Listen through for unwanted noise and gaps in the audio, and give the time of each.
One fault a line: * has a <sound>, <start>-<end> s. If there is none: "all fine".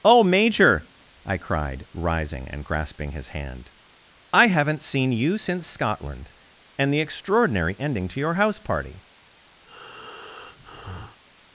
* has a breath, 9.7-11.2 s